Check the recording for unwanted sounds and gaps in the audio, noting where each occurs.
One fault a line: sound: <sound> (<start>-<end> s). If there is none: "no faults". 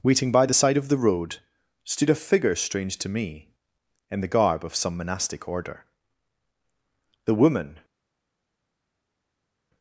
no faults